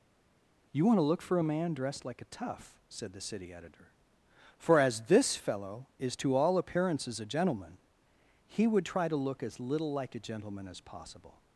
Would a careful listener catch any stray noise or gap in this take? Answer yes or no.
no